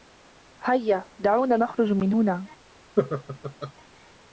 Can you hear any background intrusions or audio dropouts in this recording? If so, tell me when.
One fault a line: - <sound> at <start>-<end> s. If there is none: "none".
- laugh at 3.0-3.7 s